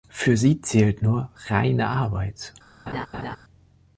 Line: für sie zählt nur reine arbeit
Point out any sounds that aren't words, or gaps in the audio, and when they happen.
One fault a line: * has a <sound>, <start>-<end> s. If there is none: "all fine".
* has a laugh, 2.9-3.4 s